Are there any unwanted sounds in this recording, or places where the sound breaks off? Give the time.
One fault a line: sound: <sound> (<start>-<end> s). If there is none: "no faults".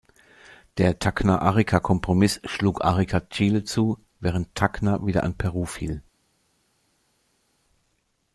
no faults